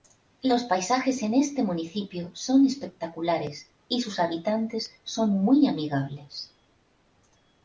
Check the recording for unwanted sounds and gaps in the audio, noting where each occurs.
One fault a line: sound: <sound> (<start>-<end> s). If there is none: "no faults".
no faults